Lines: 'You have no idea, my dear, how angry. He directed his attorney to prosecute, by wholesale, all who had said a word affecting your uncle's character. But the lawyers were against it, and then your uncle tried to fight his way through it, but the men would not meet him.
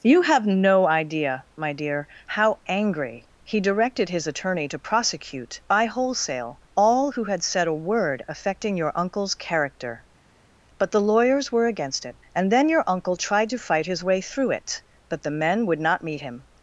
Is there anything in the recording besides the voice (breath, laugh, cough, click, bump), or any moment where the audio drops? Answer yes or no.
no